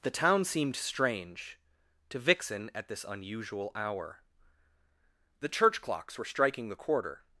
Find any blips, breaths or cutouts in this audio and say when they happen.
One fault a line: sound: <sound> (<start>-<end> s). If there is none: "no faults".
no faults